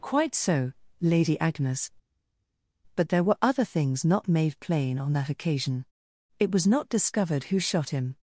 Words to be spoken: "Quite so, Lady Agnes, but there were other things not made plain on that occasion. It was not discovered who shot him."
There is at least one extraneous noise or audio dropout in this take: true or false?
false